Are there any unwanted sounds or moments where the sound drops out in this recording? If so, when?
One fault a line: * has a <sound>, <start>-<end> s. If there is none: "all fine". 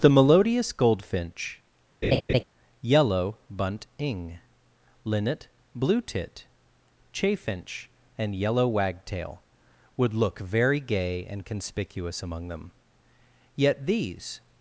* has a laugh, 2.0-2.4 s